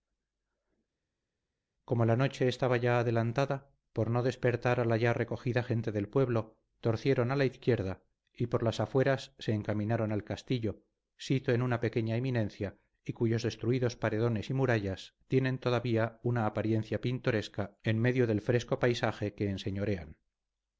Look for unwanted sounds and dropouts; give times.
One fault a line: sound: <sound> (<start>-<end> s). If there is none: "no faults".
no faults